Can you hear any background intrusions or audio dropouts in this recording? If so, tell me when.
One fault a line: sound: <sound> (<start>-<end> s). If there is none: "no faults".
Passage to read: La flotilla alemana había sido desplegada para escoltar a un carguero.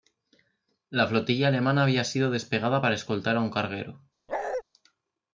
sound: bark (4.3-4.6 s)